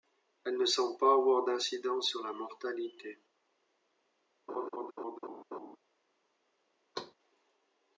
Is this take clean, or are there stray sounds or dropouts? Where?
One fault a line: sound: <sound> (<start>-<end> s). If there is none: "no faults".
sound: laugh (4.5-5.8 s)
sound: thud (6.9-7.1 s)